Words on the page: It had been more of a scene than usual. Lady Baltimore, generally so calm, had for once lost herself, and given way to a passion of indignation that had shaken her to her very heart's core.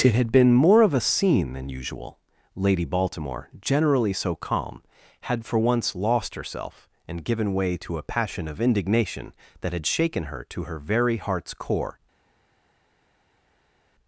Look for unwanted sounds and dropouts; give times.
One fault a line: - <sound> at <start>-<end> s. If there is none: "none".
none